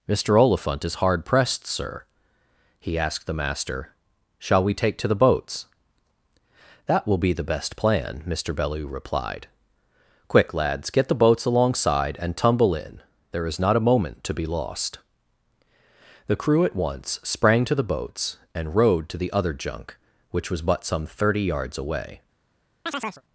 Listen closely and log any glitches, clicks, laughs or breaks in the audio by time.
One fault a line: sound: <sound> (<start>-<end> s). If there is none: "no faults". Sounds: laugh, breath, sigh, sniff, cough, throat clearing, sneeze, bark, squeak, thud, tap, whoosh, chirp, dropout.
sound: chirp (22.9-23.2 s)